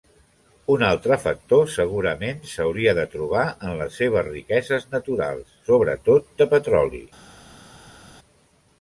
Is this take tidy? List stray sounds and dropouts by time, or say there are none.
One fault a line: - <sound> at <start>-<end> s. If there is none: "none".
none